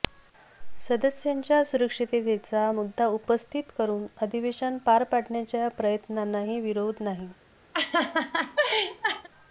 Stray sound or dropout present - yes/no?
yes